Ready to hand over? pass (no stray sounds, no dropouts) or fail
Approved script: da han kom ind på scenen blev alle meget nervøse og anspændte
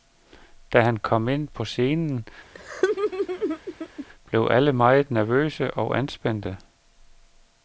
fail